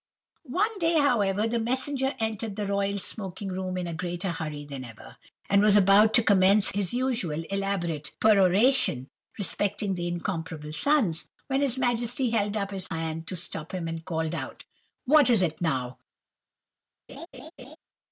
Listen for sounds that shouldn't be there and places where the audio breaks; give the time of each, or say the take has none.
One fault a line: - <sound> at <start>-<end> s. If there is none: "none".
- laugh at 17.1-17.8 s